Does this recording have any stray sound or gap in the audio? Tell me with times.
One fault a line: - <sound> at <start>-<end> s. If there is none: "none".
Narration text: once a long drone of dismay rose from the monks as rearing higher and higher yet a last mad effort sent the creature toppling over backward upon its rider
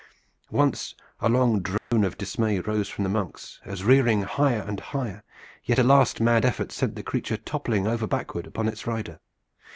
- dropout at 1.8-1.9 s